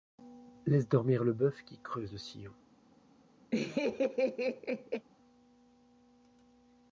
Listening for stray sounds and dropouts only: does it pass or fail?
fail